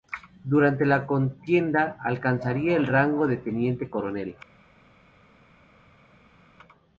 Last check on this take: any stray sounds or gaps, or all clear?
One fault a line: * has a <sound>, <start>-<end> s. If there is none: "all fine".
all fine